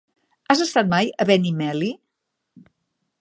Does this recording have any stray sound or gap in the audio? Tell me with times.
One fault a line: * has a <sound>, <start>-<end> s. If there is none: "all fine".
all fine